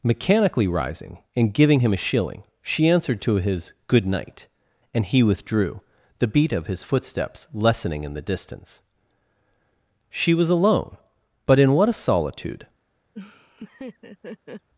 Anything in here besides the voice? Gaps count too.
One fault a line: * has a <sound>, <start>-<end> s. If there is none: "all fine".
* has a laugh, 13.1-14.7 s